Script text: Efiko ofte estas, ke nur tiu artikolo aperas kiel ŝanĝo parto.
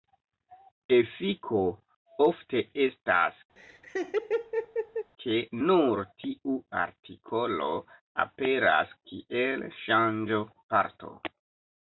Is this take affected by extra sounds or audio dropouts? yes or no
yes